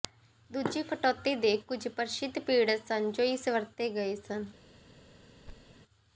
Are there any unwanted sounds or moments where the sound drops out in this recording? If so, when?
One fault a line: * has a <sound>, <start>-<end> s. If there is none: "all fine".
* has a thud, 5.5-5.8 s